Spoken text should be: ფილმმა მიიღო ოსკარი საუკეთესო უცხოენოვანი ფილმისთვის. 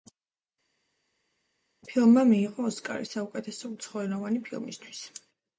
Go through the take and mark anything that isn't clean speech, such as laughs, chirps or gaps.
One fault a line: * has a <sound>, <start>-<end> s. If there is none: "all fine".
all fine